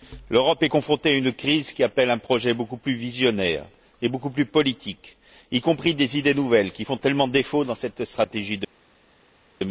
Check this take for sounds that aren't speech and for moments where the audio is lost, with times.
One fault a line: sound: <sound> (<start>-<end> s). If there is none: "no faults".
no faults